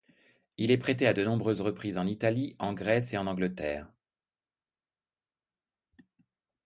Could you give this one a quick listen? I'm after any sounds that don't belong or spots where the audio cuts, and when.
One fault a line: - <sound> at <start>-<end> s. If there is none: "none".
none